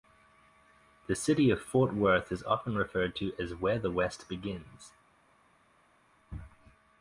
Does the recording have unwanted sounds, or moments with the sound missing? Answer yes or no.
no